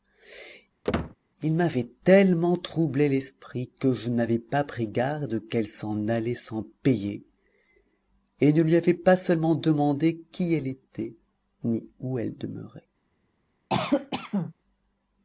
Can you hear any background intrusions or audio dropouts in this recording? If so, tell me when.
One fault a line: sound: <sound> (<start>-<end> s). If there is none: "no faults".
sound: squeak (0.8-1.2 s)
sound: cough (13.7-14.5 s)